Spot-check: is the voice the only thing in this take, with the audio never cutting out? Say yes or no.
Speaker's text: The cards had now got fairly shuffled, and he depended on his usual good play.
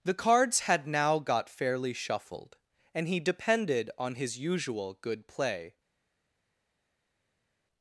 yes